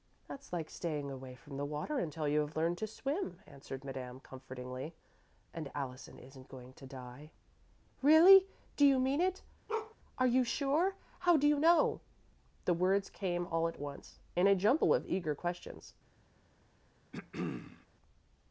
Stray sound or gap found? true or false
true